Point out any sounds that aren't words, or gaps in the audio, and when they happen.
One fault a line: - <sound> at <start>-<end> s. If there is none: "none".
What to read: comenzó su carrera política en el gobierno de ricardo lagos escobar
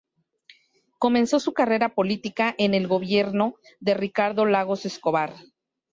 none